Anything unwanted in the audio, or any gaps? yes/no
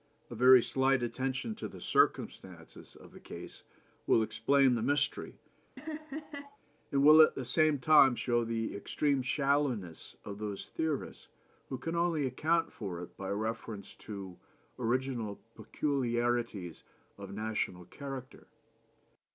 yes